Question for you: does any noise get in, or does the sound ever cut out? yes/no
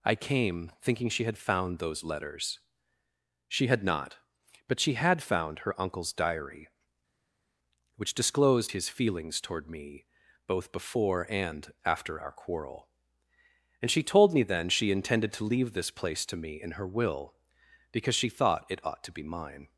no